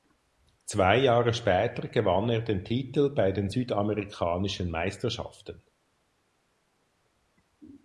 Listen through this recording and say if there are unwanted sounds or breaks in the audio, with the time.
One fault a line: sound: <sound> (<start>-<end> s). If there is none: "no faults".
no faults